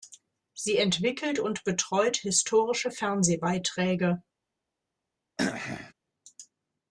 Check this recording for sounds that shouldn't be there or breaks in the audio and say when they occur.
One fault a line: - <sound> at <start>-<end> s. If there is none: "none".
- throat clearing at 5.4-5.9 s